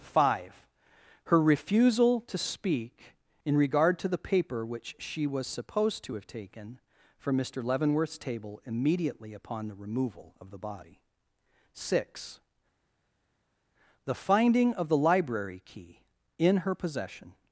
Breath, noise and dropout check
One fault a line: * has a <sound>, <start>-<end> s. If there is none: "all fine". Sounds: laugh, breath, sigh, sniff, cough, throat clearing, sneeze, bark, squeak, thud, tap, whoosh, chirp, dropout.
all fine